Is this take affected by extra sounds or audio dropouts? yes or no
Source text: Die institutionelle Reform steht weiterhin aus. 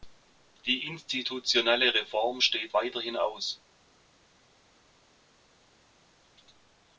no